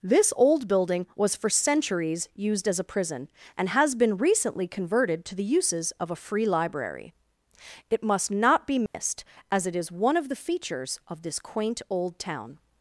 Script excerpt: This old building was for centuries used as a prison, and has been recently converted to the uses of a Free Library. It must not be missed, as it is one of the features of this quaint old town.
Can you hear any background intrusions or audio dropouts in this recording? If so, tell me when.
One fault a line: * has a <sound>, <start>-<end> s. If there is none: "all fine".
* has a dropout, 8.9-8.9 s